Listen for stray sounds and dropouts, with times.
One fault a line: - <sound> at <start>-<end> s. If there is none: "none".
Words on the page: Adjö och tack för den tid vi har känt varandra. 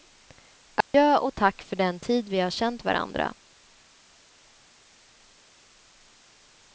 - dropout at 0.8-0.9 s